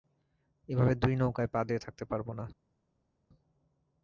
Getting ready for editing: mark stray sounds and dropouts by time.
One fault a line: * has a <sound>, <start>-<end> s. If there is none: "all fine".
all fine